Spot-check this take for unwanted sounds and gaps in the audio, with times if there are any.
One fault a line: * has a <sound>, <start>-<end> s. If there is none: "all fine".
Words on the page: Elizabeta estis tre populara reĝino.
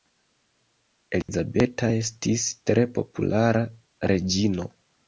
* has a dropout, 1.2-1.3 s